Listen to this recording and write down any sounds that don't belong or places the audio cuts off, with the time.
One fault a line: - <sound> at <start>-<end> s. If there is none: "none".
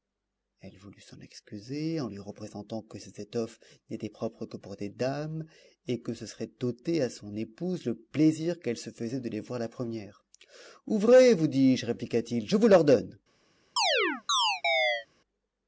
- chirp at 13.8-15.1 s